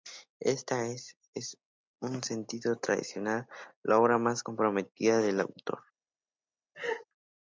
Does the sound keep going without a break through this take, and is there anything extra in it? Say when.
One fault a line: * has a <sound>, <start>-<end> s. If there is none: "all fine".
* has a laugh, 6.7-7.0 s